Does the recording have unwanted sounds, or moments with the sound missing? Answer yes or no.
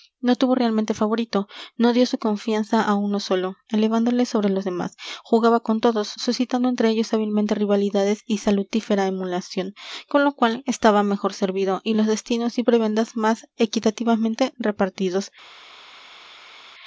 no